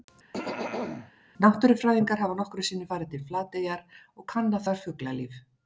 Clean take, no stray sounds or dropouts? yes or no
no